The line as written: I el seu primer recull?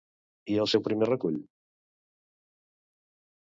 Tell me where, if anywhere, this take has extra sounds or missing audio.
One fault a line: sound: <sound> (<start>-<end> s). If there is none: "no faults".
no faults